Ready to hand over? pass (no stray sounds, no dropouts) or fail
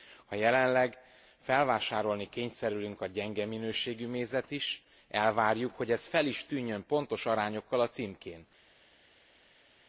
pass